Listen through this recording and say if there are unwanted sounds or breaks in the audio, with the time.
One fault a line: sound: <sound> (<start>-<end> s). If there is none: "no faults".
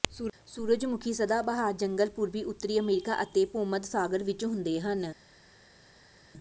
no faults